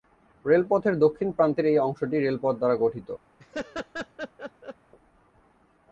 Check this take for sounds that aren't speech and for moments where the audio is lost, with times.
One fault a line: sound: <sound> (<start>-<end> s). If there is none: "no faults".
sound: laugh (3.4-4.8 s)